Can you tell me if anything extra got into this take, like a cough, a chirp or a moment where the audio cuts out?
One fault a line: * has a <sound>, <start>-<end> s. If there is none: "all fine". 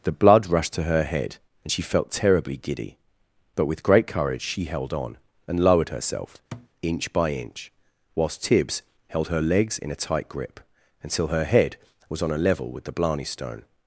* has a thud, 6.5-6.7 s